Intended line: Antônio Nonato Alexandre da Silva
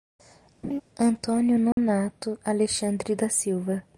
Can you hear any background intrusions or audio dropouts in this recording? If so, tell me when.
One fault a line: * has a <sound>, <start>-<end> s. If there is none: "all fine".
* has a laugh, 0.6-0.8 s
* has a dropout, 1.7-1.8 s